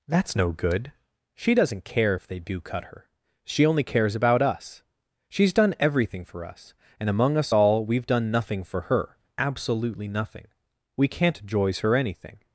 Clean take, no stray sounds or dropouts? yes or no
yes